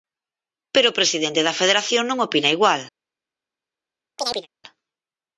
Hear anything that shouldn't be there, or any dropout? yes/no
yes